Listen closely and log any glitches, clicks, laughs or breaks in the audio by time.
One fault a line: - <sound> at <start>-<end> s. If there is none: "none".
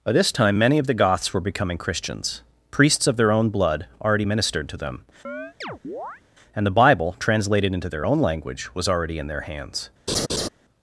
- chirp at 5.2-6.2 s
- laugh at 10.1-10.5 s